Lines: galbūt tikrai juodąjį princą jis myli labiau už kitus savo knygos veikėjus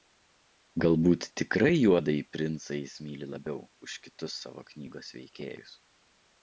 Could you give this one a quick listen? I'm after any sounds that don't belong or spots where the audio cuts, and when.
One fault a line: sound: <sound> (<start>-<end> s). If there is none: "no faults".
no faults